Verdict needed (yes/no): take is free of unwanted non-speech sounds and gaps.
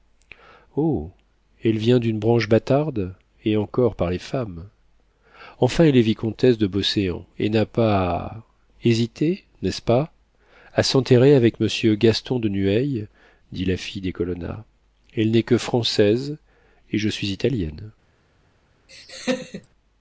no